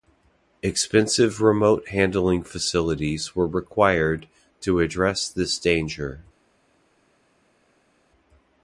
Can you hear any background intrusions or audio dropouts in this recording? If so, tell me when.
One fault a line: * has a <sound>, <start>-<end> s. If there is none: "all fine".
all fine